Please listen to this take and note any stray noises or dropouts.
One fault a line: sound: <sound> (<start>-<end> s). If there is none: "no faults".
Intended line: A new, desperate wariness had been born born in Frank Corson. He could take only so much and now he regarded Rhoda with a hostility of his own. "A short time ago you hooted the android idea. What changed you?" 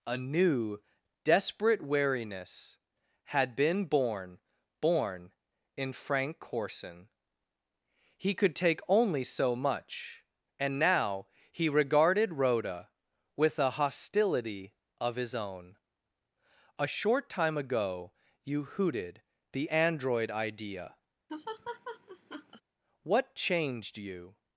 sound: laugh (21.3-22.6 s)